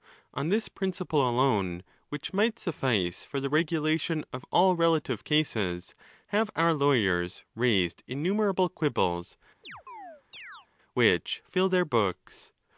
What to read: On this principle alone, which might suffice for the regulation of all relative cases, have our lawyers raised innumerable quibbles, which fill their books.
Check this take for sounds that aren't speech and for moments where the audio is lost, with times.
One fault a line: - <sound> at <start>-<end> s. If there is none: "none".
- chirp at 9.6-10.7 s